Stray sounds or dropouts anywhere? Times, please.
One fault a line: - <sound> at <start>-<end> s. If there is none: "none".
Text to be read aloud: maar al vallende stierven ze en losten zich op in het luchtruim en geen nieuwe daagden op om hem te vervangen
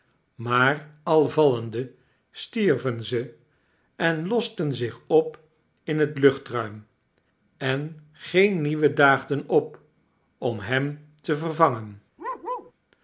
- bark at 12.2-12.7 s